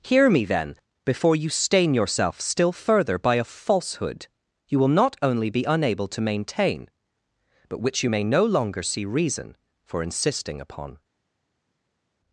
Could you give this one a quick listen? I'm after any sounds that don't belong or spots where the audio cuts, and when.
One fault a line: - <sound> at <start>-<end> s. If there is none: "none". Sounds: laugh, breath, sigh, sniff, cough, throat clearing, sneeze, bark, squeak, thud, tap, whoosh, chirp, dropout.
none